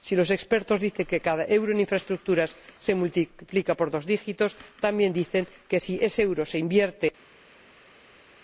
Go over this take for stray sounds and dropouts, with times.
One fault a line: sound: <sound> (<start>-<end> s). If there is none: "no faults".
no faults